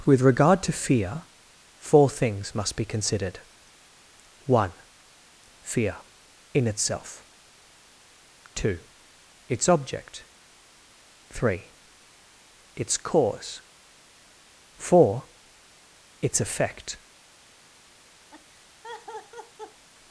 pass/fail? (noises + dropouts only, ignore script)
fail